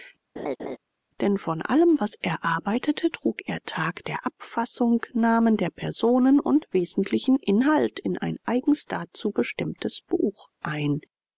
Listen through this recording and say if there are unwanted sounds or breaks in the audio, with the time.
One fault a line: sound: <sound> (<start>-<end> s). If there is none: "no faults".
sound: laugh (0.4-0.8 s)